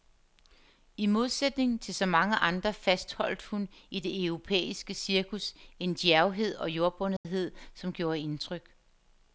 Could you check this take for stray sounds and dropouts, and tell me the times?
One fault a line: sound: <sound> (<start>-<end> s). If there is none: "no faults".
sound: dropout (7.2-7.2 s)